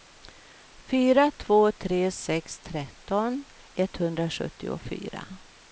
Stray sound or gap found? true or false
false